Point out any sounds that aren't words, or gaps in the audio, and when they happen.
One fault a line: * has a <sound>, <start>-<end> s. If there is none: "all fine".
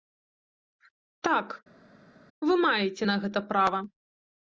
all fine